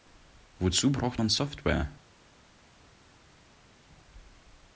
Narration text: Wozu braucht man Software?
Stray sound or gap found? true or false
false